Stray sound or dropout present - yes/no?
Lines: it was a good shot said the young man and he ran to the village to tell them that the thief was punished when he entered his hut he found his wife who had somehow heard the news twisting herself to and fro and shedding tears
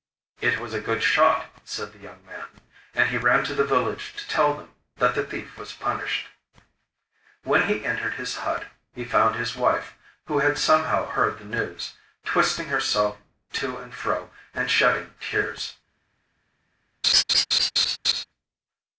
yes